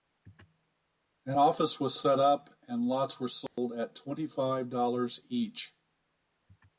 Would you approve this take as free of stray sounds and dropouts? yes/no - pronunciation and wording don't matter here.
no